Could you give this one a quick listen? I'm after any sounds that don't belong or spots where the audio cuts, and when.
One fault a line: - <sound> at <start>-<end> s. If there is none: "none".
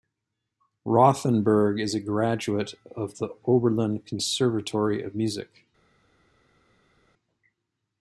none